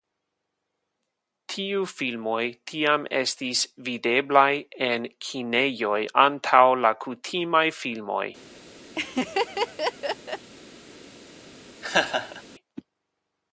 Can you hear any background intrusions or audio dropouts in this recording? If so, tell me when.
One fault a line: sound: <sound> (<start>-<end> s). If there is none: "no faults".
sound: laugh (8.9-10.5 s)
sound: laugh (11.8-12.4 s)